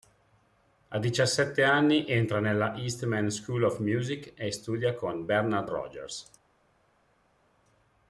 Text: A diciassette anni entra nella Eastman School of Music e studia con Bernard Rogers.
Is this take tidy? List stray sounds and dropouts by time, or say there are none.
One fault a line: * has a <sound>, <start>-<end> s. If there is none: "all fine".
all fine